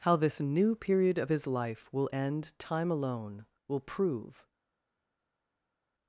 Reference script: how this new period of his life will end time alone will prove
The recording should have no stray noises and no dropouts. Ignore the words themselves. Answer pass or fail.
pass